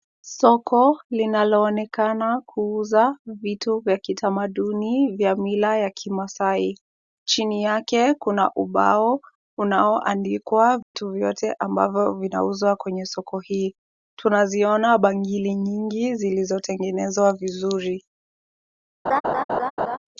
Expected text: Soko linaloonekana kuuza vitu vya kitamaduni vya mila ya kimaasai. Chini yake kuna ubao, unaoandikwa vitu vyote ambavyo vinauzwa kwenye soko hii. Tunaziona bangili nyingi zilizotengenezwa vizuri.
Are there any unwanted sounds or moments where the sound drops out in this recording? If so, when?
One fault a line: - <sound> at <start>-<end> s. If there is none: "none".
- dropout at 10.8-10.9 s
- laugh at 19.1-20.0 s